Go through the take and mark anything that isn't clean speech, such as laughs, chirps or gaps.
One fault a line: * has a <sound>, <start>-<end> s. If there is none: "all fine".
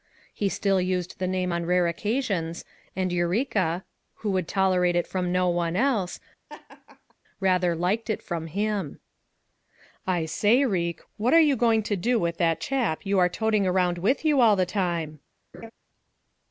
* has a laugh, 6.5-7.2 s
* has a laugh, 15.5-15.7 s